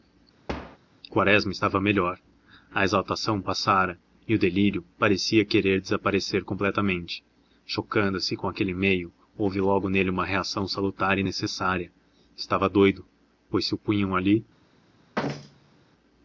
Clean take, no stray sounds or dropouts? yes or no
no